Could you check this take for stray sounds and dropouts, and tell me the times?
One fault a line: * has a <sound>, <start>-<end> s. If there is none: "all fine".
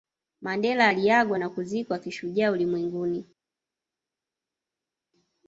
all fine